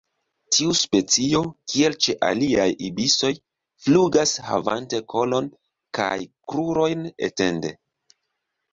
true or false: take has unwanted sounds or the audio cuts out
false